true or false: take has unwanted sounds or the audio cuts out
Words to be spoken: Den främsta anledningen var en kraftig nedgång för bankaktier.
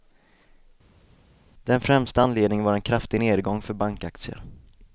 false